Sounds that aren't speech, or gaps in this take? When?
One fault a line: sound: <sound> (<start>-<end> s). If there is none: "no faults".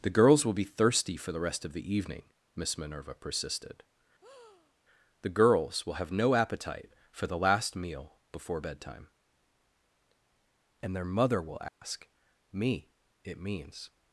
sound: breath (4.2-4.7 s)
sound: dropout (11.7-11.8 s)